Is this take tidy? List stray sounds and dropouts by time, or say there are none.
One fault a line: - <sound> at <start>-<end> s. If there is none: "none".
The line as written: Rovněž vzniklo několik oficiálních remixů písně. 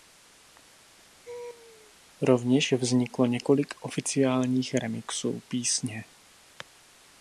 - laugh at 1.2-1.9 s